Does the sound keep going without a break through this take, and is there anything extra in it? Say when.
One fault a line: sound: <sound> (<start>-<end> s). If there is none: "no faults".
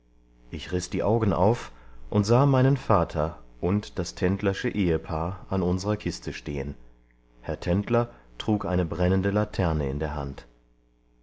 no faults